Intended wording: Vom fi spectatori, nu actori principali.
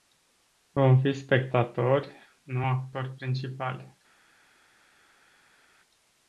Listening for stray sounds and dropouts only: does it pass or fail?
pass